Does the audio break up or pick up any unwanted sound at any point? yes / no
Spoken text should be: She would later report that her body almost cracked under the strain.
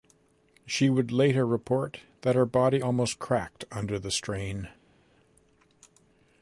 no